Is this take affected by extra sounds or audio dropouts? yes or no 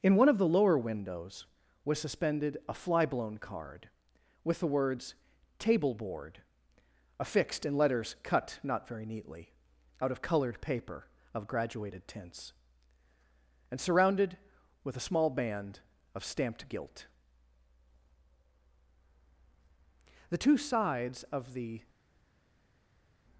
no